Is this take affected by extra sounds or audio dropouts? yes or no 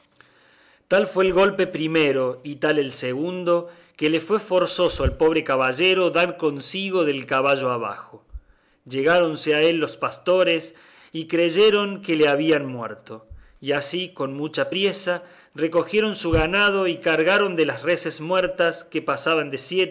no